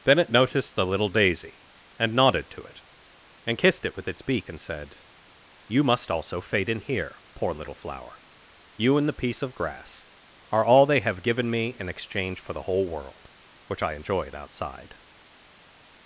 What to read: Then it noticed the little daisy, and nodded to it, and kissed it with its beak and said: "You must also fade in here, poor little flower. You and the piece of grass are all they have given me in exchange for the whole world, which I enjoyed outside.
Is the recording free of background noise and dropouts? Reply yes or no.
yes